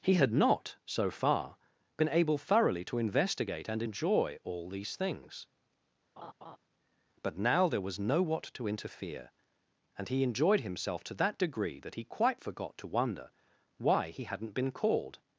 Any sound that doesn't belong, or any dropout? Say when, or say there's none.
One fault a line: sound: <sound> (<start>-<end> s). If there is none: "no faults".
sound: laugh (6.2-6.6 s)